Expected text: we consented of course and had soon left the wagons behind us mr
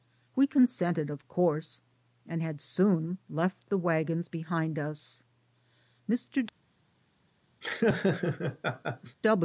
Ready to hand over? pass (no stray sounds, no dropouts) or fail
fail